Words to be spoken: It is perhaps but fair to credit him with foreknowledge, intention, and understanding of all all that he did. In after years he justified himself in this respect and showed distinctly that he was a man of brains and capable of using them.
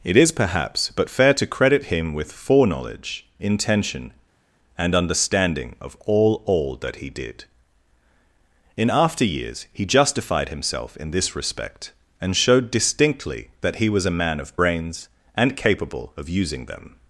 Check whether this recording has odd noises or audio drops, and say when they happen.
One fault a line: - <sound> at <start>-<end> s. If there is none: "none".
none